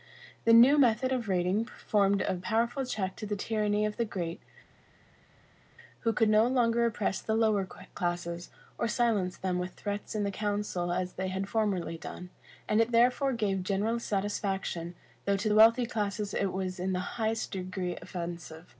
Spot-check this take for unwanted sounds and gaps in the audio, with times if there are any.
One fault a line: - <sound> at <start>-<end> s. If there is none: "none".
none